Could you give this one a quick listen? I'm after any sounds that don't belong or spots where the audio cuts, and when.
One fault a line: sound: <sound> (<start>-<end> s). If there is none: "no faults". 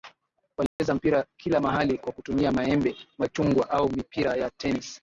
sound: dropout (0.7-0.8 s)